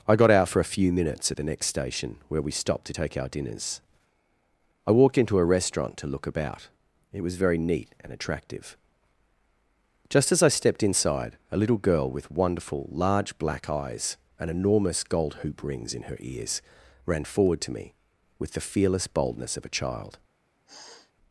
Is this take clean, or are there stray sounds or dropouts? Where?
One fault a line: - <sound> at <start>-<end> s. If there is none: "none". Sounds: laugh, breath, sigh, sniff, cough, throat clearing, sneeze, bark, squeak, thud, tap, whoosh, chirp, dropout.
- sniff at 20.7-21.1 s